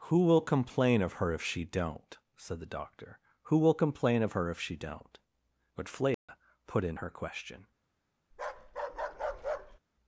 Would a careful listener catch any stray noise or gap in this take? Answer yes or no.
yes